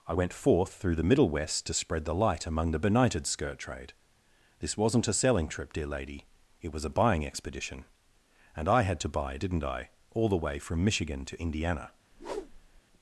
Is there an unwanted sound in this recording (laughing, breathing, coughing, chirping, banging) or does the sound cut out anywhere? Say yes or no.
yes